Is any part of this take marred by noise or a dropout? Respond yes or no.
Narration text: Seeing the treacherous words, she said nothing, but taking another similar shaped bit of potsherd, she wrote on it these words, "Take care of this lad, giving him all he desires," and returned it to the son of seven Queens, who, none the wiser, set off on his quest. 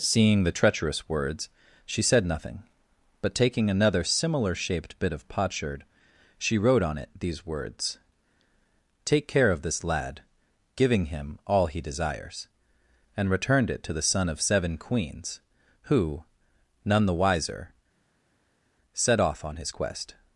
no